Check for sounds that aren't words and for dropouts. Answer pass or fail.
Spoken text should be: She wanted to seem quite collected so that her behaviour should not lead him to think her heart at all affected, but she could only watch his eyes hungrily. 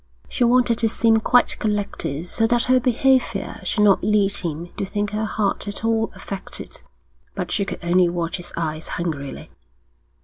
pass